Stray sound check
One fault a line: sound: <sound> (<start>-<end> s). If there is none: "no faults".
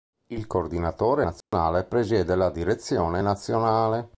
sound: dropout (1.4-1.5 s)